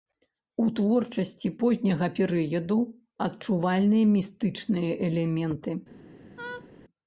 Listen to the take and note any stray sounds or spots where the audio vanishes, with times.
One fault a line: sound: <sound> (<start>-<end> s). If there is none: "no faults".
sound: laugh (6.4-6.7 s)